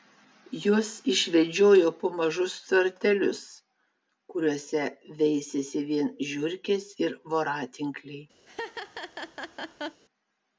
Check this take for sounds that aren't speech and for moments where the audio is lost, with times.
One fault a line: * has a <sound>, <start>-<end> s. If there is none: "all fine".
* has a laugh, 8.5-10.0 s